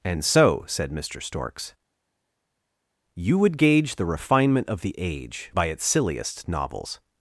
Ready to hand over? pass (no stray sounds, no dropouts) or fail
pass